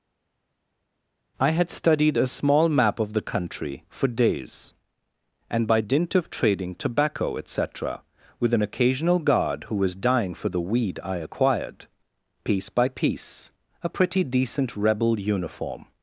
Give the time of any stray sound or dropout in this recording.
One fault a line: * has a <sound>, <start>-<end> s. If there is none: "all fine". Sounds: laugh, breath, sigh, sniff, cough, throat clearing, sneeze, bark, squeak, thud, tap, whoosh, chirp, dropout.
all fine